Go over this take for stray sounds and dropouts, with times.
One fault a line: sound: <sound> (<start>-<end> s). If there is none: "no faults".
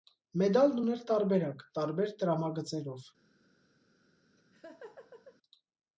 sound: laugh (4.4-5.4 s)